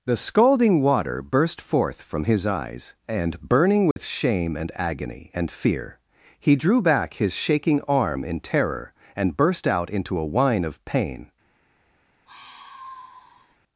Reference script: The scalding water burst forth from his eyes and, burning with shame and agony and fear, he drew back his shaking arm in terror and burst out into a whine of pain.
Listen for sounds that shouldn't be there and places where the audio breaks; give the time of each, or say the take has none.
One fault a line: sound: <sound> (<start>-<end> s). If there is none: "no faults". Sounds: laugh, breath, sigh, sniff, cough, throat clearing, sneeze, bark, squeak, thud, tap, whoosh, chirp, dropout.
sound: dropout (3.9-4.0 s)
sound: sigh (12.3-13.6 s)